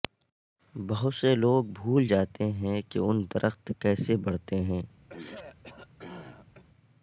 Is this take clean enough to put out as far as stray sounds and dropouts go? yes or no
no